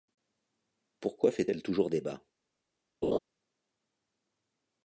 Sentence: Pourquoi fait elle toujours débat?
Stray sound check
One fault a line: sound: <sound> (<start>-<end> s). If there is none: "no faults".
sound: laugh (3.0-3.2 s)